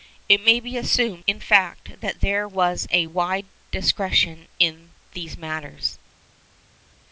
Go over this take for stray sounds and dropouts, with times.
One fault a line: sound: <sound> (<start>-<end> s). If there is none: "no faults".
no faults